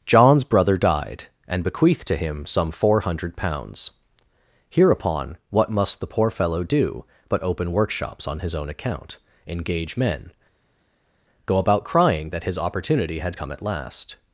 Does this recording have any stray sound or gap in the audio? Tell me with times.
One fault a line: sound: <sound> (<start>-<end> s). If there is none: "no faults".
no faults